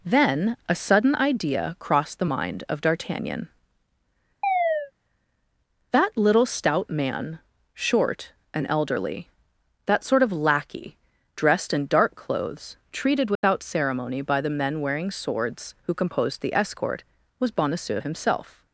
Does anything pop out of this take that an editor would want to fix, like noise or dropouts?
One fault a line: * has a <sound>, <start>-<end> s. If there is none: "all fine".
* has a chirp, 4.4-4.9 s
* has a dropout, 13.4-13.4 s